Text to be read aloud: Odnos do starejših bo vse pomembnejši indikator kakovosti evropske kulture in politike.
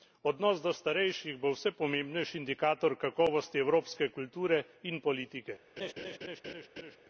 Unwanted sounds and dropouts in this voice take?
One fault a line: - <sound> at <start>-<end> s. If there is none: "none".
- laugh at 5.8-7.0 s